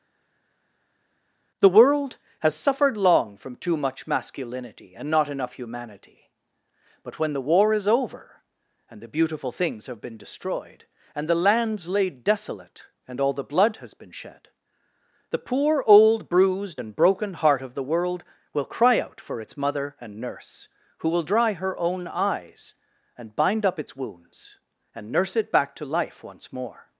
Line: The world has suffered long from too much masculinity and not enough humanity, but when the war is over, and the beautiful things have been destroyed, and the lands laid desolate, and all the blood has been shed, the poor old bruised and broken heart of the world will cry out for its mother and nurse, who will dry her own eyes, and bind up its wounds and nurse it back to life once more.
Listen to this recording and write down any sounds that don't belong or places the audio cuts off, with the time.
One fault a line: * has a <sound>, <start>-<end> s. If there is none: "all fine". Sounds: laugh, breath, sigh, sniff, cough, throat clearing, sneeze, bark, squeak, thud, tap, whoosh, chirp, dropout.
all fine